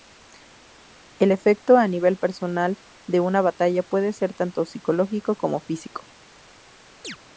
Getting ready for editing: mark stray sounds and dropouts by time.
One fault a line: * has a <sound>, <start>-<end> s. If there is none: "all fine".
* has a chirp, 7.0-7.2 s